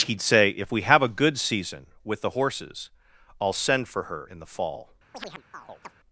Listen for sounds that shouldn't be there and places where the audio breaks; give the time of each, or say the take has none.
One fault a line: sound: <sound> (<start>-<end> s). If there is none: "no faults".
sound: chirp (5.1-5.9 s)